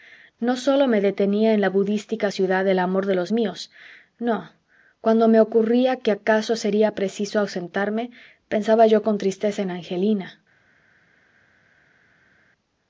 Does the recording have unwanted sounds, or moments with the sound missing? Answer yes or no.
no